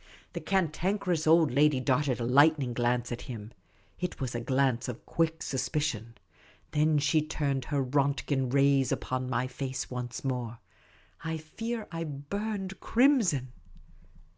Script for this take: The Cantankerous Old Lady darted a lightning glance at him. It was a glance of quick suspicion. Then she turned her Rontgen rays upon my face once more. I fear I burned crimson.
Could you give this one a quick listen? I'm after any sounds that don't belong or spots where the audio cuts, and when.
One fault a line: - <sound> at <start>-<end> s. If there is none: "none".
none